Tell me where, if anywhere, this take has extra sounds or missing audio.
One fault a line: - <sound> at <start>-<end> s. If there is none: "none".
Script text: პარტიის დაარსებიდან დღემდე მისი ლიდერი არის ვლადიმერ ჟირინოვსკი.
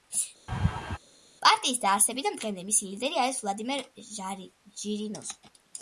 - laugh at 0.5-1.0 s